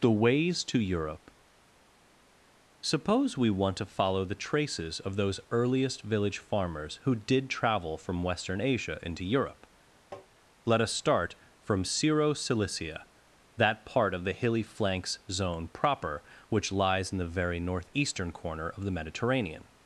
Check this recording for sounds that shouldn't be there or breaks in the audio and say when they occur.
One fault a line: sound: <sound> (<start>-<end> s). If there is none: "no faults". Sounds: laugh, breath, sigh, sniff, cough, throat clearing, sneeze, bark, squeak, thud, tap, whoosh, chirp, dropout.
sound: tap (10.1-10.3 s)